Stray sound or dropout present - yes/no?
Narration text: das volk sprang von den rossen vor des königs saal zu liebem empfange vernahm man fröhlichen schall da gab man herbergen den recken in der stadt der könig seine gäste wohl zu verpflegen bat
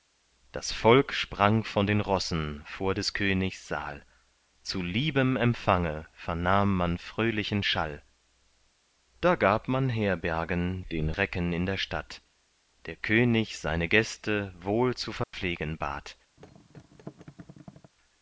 yes